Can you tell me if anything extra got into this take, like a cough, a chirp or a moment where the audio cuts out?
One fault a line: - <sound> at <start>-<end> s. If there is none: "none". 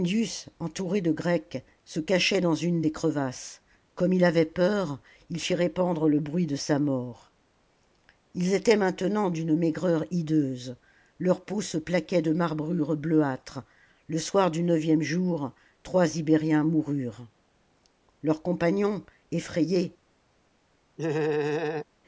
- laugh at 21.0-21.9 s